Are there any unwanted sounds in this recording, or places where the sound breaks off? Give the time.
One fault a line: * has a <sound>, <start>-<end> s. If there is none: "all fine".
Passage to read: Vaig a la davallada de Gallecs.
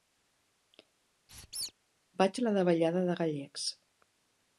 * has a squeak, 1.3-1.7 s